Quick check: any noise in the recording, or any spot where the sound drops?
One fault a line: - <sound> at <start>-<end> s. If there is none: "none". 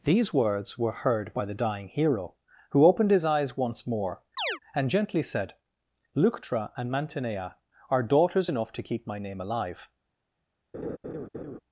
- chirp at 4.4-4.6 s
- laugh at 10.7-11.6 s